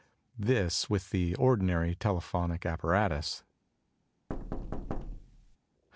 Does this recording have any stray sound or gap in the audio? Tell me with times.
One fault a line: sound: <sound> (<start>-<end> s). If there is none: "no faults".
sound: thud (4.3-5.6 s)